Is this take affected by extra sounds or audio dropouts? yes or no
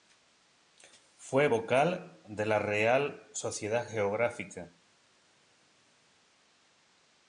no